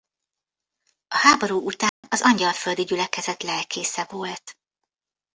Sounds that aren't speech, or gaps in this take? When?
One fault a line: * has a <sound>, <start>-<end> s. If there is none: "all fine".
* has a dropout, 1.9-2.0 s